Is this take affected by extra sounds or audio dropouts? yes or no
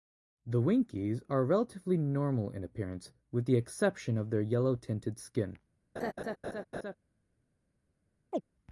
yes